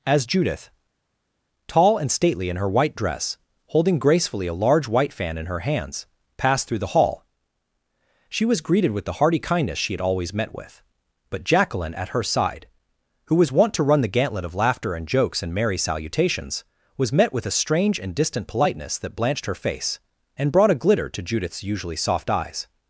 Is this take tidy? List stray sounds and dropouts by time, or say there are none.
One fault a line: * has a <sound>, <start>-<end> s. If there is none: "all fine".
all fine